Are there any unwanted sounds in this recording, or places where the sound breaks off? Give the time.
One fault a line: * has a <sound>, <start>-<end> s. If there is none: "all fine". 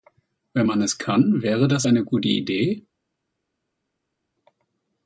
all fine